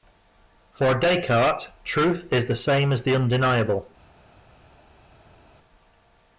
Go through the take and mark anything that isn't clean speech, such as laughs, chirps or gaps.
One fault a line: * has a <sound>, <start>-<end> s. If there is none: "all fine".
all fine